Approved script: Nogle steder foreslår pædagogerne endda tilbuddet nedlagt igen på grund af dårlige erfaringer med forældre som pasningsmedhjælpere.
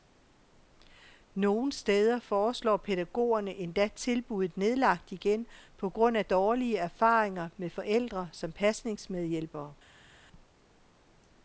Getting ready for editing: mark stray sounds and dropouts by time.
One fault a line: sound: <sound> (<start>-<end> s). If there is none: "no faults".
no faults